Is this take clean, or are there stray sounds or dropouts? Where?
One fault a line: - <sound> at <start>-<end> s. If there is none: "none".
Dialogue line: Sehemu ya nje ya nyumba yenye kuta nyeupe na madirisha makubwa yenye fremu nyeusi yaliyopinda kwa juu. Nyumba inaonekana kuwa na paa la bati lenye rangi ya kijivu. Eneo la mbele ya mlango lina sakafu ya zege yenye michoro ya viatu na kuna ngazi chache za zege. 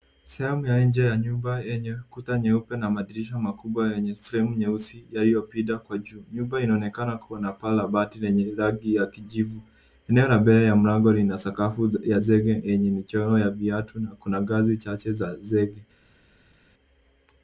none